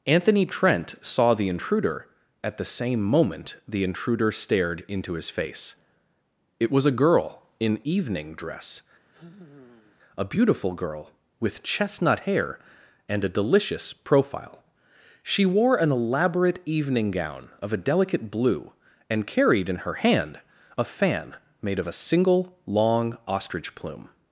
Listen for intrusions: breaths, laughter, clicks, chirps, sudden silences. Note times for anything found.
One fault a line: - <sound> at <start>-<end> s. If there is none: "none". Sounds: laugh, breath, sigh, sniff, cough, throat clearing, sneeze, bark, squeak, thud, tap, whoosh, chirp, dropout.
- sigh at 9.1-10.0 s